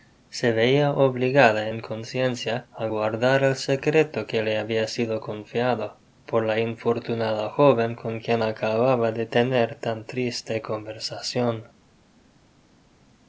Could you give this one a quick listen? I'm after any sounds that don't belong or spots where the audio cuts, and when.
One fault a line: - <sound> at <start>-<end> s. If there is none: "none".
none